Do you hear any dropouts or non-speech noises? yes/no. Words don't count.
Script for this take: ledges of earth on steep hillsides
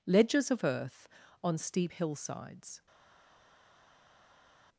no